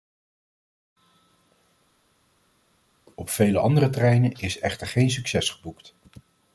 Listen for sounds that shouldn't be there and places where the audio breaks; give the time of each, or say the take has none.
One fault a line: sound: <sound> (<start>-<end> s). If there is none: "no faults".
no faults